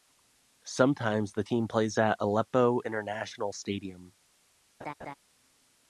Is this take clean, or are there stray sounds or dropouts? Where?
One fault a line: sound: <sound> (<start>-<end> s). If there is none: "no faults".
sound: laugh (4.8-5.1 s)